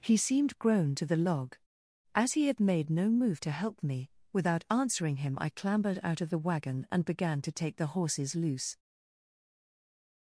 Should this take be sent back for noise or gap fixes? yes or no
no